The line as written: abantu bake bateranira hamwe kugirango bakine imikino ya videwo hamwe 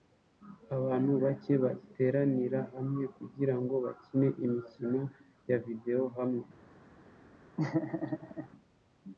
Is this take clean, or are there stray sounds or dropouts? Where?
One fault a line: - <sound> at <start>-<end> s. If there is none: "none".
- laugh at 7.6-8.5 s